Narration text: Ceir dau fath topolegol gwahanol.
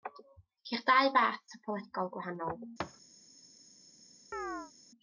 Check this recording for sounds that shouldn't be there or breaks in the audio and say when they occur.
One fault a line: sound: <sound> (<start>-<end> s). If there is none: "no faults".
sound: thud (2.8-3.0 s)
sound: chirp (4.3-4.7 s)